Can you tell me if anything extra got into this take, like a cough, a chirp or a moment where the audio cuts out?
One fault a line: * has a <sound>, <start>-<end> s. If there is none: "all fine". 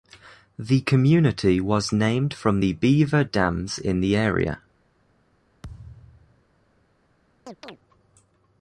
* has a thud, 5.6-6.5 s
* has a chirp, 7.5-7.8 s